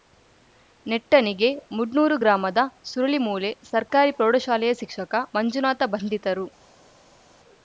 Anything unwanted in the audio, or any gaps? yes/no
no